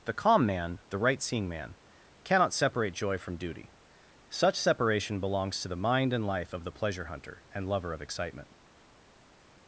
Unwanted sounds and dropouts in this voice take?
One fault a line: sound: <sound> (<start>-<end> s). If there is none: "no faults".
no faults